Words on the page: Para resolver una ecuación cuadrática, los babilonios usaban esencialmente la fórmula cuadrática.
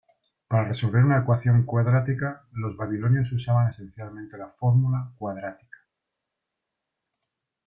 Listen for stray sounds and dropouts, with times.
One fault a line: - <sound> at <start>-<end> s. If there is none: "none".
none